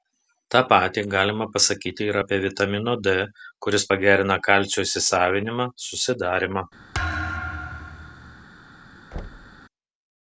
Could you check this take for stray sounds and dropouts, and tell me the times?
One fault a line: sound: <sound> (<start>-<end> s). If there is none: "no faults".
sound: thud (6.9-8.5 s)
sound: thud (9.1-9.6 s)